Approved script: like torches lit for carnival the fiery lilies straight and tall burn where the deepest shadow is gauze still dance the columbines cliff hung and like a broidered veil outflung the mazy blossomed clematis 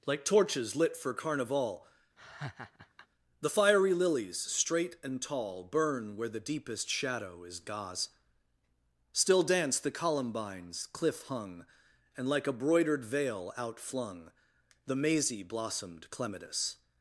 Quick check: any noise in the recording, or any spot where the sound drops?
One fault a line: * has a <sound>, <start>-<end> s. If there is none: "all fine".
* has a laugh, 2.2-3.1 s